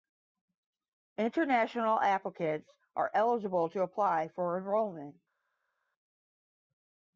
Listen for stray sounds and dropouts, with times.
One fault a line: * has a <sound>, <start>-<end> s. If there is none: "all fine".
all fine